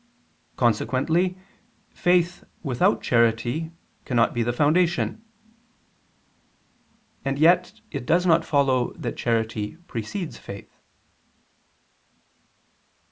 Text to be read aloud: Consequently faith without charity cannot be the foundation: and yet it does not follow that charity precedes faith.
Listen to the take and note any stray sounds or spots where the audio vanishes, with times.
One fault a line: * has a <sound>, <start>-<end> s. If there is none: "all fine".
all fine